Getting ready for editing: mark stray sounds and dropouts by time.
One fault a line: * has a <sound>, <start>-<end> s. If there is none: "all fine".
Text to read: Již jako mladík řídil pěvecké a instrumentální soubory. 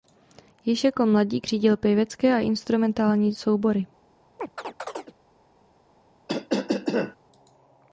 * has a chirp, 4.4-5.1 s
* has a cough, 6.3-7.2 s